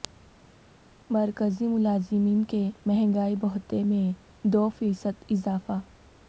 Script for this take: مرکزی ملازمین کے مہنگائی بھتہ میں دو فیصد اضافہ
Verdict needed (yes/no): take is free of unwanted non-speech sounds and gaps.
yes